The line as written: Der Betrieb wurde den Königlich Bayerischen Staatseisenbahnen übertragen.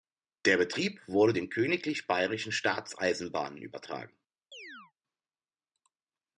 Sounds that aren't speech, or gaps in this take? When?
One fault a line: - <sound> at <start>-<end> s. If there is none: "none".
- chirp at 4.5-4.9 s